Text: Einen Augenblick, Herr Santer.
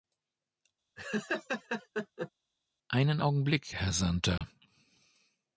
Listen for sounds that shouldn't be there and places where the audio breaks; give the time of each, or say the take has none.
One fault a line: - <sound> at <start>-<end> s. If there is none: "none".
- laugh at 1.0-2.3 s
- dropout at 4.4-4.4 s